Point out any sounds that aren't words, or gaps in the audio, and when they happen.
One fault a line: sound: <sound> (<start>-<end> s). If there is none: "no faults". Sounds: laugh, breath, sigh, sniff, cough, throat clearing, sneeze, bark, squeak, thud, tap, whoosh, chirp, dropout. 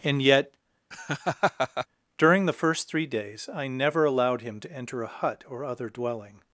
sound: laugh (0.9-1.9 s)